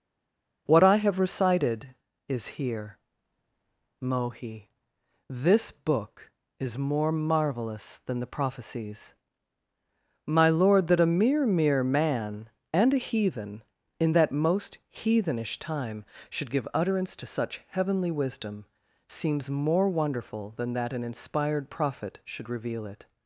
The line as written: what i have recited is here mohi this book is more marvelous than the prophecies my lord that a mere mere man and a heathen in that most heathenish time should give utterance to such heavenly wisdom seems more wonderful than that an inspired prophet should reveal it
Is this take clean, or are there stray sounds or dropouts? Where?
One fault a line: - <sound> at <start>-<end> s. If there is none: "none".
none